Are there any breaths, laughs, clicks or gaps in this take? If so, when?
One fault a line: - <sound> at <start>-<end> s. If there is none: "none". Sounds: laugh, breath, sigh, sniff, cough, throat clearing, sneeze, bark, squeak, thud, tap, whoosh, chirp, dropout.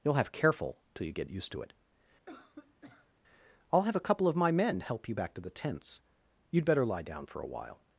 - cough at 2.3-3.1 s